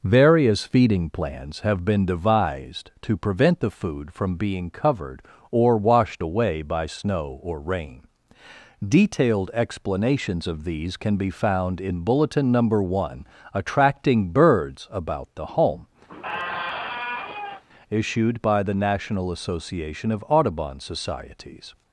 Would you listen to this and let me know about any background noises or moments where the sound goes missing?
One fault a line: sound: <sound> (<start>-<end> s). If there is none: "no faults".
sound: squeak (16.1-17.6 s)